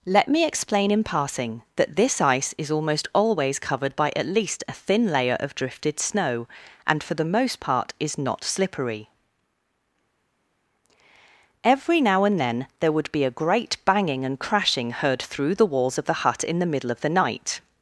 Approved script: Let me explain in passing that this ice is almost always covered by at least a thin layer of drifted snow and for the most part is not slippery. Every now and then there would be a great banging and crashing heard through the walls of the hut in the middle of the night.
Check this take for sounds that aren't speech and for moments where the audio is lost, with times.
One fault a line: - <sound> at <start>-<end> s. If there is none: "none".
none